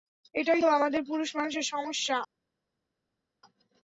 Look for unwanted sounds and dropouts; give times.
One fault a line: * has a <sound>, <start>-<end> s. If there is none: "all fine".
all fine